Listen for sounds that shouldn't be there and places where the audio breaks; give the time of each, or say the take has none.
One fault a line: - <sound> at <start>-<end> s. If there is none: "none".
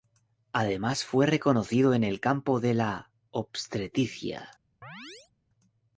- chirp at 4.8-5.3 s